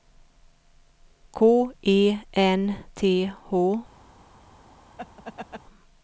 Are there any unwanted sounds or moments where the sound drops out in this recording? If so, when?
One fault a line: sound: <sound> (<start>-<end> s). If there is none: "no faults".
sound: laugh (5.0-5.6 s)